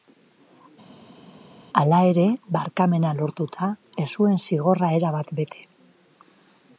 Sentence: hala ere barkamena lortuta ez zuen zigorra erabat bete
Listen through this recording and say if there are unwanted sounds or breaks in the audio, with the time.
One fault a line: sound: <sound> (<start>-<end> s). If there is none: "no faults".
no faults